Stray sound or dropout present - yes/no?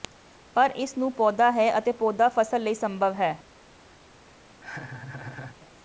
yes